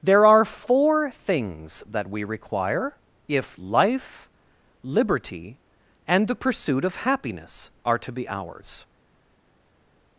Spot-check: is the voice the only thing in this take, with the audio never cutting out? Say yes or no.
yes